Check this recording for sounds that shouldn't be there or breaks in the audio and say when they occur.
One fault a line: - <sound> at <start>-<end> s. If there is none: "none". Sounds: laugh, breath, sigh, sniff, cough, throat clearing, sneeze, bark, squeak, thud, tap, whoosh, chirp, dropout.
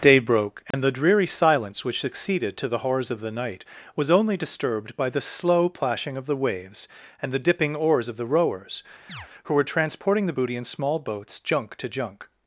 - dropout at 0.7-0.7 s
- chirp at 9.1-9.3 s